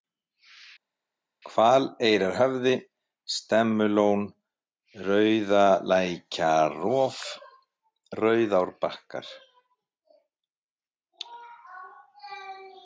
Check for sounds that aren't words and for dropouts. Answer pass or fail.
pass